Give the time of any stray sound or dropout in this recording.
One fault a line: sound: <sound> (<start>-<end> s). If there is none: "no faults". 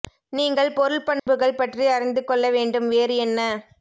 sound: dropout (1.2-1.3 s)